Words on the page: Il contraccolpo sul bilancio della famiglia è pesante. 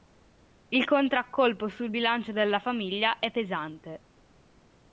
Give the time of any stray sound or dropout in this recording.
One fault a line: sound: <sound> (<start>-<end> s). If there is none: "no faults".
no faults